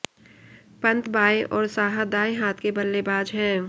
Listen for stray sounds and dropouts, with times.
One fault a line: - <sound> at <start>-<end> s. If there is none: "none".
none